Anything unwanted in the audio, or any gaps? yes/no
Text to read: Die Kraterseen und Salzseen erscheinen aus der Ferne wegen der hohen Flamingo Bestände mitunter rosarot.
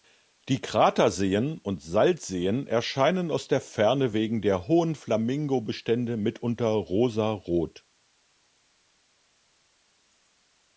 no